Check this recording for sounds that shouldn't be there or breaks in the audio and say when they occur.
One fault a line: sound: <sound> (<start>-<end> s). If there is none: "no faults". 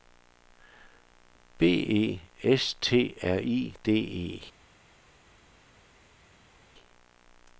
no faults